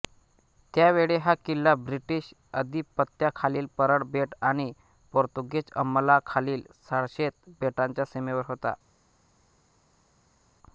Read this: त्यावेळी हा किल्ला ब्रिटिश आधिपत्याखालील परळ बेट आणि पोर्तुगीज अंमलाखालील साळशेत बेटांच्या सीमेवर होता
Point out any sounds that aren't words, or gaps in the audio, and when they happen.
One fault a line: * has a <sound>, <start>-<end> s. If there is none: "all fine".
all fine